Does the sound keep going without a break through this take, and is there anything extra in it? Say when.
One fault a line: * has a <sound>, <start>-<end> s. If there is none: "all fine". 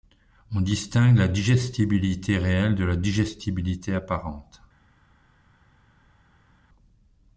all fine